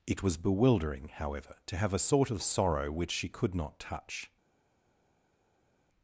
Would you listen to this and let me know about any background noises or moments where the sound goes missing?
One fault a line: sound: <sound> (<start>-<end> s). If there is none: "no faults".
no faults